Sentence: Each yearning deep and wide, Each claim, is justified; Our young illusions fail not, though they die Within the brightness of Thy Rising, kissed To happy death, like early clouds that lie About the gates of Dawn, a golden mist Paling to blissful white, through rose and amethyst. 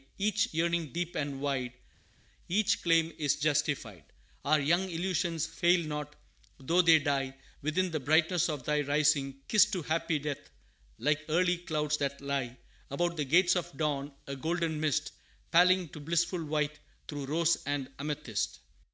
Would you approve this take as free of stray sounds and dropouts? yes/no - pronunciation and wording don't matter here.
yes